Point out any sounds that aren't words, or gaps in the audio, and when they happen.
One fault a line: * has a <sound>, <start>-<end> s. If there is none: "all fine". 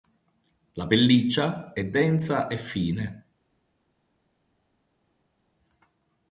all fine